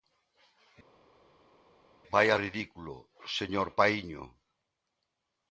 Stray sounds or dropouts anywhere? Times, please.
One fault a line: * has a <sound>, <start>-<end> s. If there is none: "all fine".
all fine